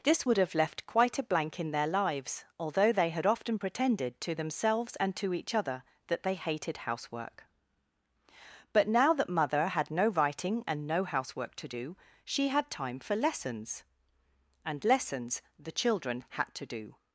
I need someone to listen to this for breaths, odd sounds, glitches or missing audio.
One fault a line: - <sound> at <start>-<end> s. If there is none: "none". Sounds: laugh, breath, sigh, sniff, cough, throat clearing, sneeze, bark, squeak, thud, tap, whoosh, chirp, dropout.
none